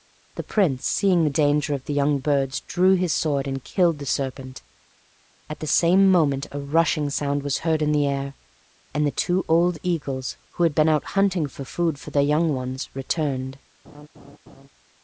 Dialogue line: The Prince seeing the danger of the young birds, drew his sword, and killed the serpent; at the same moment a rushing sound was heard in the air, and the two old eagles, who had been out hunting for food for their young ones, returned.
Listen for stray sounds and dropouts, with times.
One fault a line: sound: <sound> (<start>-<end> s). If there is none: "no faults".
sound: laugh (13.8-14.7 s)